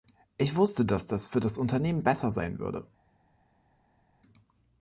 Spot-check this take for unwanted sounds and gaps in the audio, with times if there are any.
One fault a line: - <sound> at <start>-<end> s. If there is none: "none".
none